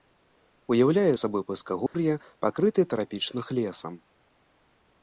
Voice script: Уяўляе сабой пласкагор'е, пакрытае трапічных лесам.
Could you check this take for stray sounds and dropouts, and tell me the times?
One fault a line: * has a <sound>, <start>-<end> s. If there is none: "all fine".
* has a dropout, 1.9-1.9 s